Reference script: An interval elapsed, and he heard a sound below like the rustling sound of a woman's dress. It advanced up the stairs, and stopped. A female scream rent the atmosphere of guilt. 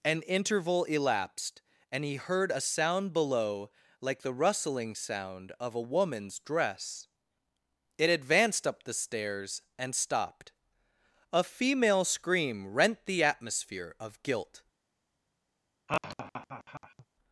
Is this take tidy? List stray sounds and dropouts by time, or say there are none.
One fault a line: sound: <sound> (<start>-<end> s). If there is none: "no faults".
sound: laugh (15.9-17.1 s)